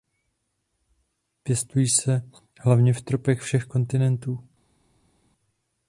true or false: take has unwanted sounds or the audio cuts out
false